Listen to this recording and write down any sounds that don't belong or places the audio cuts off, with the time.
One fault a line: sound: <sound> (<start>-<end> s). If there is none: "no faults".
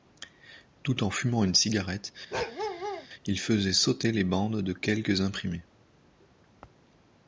sound: bark (2.3-3.1 s)